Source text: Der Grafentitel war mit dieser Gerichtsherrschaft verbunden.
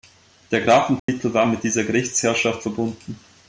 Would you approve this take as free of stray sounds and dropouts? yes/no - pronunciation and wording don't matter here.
no